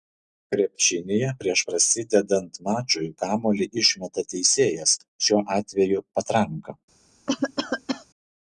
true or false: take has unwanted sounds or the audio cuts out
true